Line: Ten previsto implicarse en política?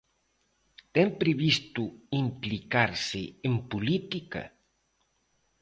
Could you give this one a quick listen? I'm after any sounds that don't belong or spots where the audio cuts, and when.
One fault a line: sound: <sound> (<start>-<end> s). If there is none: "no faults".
no faults